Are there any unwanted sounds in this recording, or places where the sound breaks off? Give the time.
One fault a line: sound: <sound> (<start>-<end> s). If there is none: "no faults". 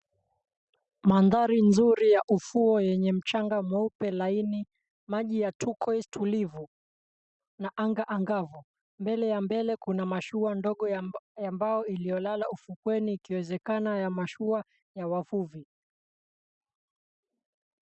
no faults